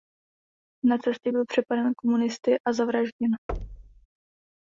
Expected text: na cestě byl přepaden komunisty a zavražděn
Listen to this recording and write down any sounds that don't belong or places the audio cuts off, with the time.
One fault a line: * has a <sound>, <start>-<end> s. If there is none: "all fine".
* has a thud, 3.5-4.1 s